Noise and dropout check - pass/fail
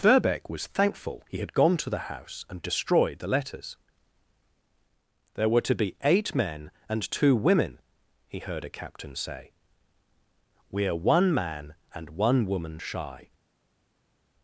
pass